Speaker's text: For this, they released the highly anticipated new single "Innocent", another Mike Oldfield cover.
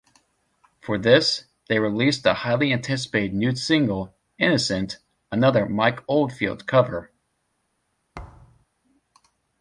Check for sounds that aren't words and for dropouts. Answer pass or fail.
fail